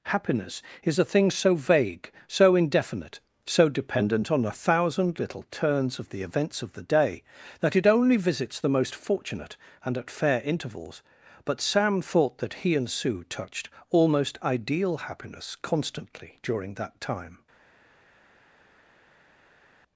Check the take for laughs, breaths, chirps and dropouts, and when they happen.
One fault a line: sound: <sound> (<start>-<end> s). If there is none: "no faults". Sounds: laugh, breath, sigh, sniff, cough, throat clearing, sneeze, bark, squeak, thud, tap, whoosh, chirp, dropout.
no faults